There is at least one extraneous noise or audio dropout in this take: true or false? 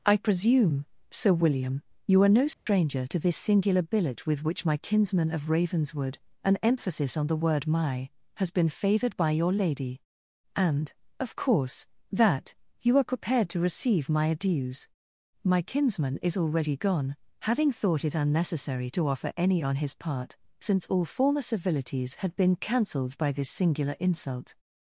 true